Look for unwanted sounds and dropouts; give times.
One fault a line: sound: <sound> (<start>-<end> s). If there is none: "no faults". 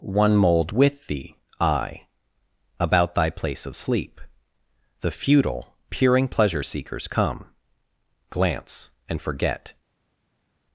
no faults